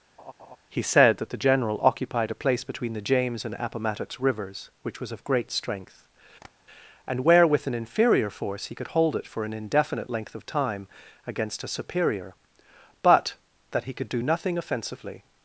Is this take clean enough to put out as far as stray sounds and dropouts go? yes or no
no